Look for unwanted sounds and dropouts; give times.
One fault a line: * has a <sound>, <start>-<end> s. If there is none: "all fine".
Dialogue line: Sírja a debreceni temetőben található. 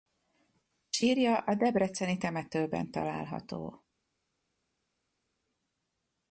all fine